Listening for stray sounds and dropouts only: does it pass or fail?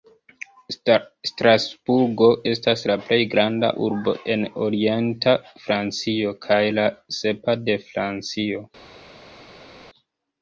pass